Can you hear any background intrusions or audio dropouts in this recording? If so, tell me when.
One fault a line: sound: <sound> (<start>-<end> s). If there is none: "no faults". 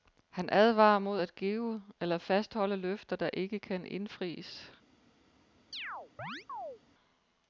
sound: chirp (5.7-6.8 s)